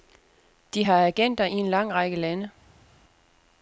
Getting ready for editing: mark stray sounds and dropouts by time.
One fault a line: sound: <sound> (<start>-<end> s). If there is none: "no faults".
no faults